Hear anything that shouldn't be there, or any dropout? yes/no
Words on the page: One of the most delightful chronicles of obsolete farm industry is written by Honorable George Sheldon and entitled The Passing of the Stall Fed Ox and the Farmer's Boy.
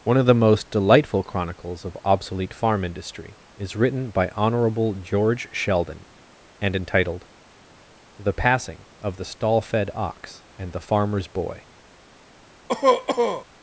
yes